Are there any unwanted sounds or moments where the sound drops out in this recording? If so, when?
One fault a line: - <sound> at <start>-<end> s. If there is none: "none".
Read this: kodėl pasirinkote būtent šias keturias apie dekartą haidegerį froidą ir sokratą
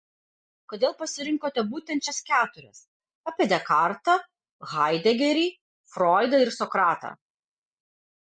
none